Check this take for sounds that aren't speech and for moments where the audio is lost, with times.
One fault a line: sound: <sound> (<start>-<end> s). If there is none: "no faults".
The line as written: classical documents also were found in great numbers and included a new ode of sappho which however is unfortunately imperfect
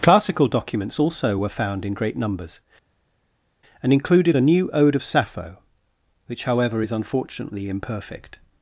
no faults